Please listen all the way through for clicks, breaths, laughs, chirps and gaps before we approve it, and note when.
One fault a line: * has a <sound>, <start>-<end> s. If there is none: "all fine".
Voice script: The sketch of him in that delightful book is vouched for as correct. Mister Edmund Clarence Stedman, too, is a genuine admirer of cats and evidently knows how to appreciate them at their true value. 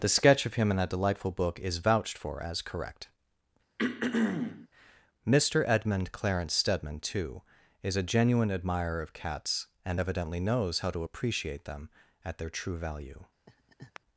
* has a throat clearing, 3.8-4.7 s
* has a laugh, 13.5-14.0 s